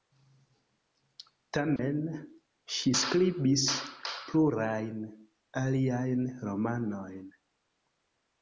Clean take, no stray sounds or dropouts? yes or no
no